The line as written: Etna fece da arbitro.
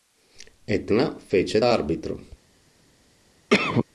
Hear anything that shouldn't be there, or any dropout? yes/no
yes